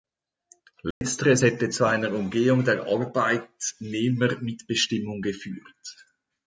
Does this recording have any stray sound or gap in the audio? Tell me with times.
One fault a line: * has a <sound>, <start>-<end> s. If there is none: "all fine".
* has a dropout, 0.9-1.0 s